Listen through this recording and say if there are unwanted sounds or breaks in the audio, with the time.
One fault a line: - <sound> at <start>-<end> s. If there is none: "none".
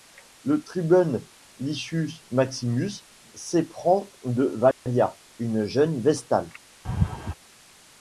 - dropout at 4.7-4.9 s
- laugh at 6.8-7.3 s